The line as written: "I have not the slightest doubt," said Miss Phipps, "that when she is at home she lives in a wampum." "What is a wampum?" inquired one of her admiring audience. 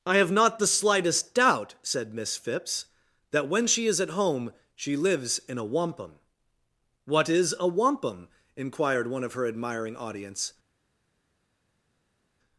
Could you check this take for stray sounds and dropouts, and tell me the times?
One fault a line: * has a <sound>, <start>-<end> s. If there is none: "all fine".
all fine